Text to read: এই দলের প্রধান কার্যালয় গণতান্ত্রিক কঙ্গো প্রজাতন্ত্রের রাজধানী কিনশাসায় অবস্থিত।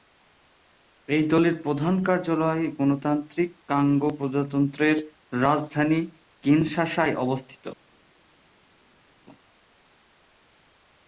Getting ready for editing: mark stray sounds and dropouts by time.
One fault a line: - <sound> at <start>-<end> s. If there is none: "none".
none